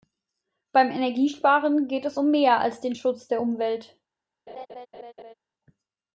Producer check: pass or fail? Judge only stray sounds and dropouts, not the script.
fail